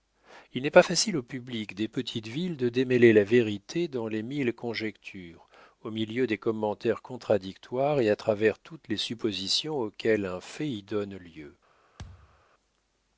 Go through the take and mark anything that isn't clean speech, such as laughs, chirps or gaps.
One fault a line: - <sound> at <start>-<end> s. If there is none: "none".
- thud at 12.0-12.4 s